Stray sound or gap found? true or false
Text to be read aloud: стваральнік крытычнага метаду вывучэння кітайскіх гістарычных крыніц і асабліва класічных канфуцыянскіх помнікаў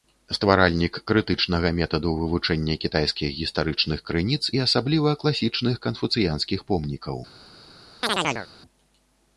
true